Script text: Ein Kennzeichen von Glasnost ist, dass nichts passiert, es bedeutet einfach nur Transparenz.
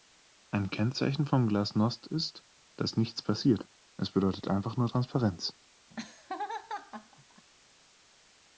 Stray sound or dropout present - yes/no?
yes